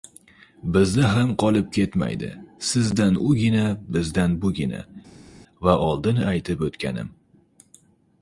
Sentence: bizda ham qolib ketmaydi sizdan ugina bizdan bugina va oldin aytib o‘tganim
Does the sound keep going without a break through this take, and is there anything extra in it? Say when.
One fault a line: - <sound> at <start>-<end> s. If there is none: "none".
none